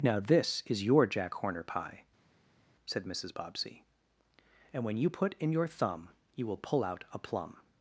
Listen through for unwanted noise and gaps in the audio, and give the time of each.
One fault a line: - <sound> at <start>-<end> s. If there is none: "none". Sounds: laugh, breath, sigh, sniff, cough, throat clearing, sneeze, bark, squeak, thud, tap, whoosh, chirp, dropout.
none